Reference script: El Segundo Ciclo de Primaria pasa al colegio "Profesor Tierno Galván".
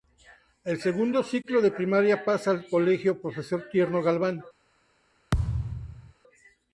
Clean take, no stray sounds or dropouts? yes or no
no